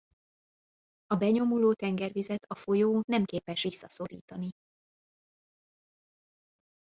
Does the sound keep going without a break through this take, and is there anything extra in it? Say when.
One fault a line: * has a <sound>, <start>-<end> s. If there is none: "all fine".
all fine